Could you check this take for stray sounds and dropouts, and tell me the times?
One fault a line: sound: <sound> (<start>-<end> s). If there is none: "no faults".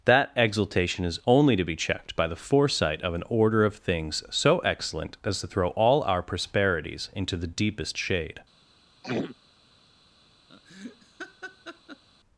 sound: throat clearing (9.0-9.4 s)
sound: laugh (10.5-12.0 s)